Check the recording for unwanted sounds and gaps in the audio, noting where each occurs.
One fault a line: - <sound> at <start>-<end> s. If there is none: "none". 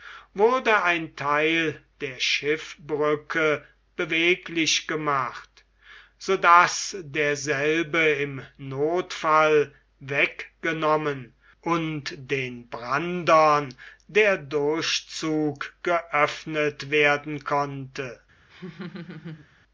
- laugh at 18.5-19.5 s